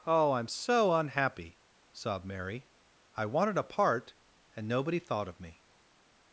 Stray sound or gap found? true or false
false